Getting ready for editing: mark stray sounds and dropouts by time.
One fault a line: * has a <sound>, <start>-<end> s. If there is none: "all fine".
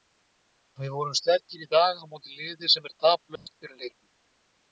* has a dropout, 3.4-3.5 s